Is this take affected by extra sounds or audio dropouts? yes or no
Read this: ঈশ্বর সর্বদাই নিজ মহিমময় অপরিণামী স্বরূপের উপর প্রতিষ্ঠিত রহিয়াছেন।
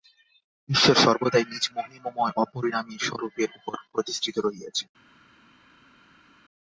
no